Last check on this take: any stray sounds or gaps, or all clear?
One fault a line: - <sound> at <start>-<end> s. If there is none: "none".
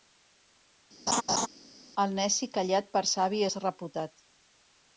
- laugh at 1.1-1.5 s